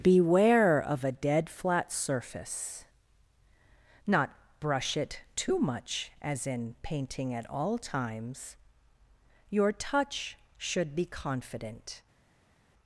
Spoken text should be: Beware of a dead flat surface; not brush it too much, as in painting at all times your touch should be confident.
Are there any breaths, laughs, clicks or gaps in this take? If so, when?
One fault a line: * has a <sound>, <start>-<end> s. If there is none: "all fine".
all fine